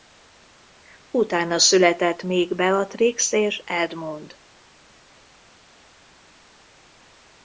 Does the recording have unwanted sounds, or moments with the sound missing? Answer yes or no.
no